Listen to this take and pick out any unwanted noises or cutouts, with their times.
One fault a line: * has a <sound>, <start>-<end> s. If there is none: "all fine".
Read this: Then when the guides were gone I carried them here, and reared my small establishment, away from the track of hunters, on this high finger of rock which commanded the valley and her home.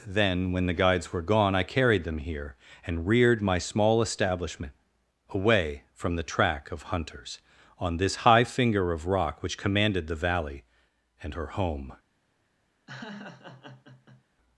* has a laugh, 12.9-14.2 s